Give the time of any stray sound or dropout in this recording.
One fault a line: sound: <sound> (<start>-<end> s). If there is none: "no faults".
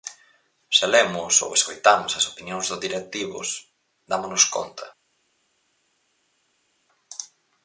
no faults